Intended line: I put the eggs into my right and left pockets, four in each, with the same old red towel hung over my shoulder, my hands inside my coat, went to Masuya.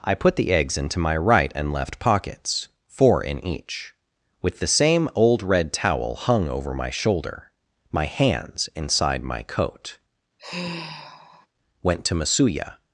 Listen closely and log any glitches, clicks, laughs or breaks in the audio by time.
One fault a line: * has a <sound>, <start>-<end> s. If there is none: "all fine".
* has a sigh, 10.4-11.5 s